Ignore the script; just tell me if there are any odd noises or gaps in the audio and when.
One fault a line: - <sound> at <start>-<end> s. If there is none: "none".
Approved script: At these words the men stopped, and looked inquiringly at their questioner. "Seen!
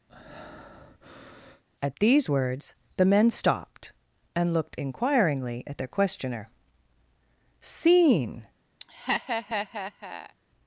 - breath at 0.1-1.6 s
- laugh at 8.8-10.3 s